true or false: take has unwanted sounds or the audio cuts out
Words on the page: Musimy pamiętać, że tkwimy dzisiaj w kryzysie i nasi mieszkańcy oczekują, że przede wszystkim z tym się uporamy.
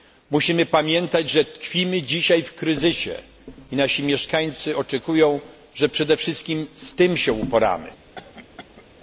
true